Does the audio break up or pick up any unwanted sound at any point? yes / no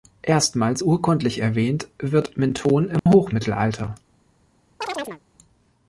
yes